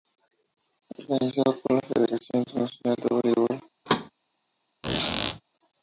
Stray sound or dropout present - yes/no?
yes